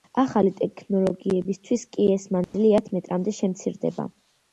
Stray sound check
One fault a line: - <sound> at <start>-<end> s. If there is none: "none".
- dropout at 2.4-2.5 s